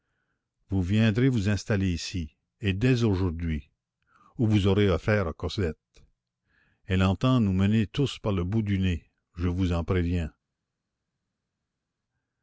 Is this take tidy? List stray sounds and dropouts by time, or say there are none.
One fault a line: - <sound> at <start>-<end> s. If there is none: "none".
none